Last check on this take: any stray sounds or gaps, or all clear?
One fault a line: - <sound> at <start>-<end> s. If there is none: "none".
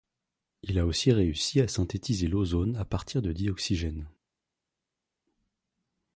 none